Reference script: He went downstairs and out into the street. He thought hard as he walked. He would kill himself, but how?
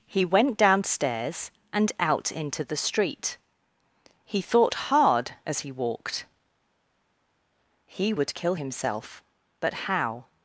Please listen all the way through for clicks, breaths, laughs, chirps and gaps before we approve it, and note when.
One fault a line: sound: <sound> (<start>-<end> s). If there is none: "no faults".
no faults